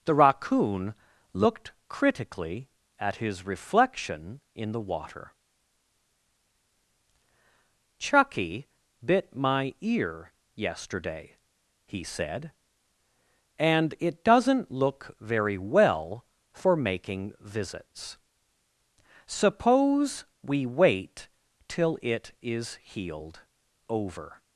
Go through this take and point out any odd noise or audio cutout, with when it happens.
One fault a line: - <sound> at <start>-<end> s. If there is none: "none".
none